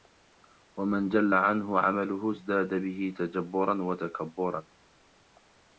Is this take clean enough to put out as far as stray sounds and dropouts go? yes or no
yes